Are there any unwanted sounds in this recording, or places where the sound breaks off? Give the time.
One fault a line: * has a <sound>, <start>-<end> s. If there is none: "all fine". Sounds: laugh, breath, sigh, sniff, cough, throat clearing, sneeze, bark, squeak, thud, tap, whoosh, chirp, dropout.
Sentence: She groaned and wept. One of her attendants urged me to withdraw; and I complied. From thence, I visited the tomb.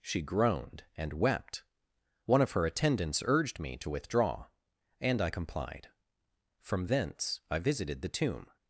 all fine